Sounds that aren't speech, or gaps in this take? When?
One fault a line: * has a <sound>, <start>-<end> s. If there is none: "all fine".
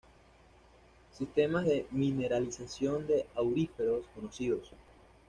all fine